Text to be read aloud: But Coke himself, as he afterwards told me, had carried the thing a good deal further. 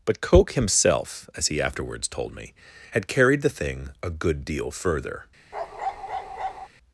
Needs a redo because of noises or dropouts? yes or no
yes